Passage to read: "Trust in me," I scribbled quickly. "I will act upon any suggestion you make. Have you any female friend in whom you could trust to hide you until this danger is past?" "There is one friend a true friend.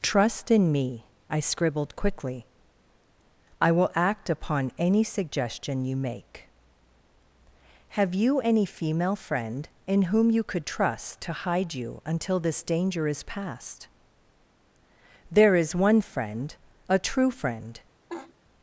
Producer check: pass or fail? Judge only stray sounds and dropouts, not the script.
fail